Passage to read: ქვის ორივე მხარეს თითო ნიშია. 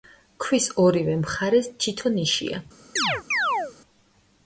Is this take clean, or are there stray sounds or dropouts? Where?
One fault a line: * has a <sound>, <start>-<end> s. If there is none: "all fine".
* has a chirp, 3.0-3.7 s